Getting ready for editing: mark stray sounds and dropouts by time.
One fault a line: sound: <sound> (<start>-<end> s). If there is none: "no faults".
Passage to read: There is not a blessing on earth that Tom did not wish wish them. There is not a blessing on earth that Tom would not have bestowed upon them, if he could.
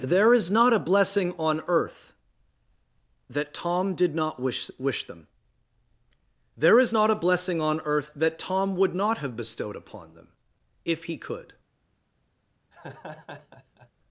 sound: laugh (12.7-13.9 s)